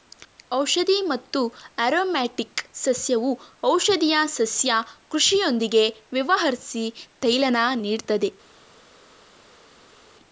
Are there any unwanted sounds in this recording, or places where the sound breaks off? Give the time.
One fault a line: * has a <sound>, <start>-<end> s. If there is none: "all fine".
all fine